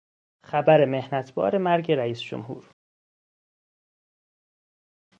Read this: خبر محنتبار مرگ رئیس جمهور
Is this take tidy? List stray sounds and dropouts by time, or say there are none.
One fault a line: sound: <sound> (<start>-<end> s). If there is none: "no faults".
no faults